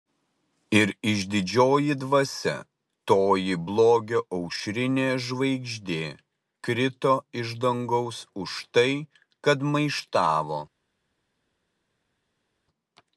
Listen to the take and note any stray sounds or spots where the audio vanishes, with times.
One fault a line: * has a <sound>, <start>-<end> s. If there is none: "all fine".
all fine